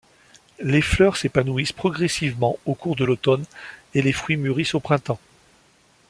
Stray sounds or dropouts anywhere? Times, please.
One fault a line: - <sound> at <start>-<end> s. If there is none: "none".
none